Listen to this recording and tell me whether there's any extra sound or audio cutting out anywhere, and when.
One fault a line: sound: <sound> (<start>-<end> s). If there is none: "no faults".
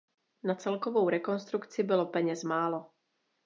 no faults